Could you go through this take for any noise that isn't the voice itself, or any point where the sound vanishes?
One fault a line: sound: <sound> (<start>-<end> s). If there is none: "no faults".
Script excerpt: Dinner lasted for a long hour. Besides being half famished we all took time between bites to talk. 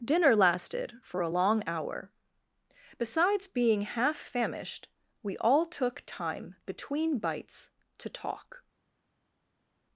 no faults